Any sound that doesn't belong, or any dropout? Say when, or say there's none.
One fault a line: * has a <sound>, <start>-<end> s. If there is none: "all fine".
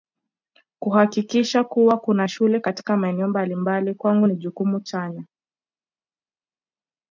all fine